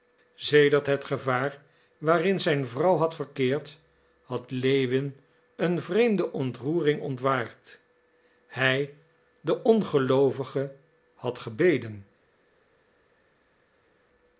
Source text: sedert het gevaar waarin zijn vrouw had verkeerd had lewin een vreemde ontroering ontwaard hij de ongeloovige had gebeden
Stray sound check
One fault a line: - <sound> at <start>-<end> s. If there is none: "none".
none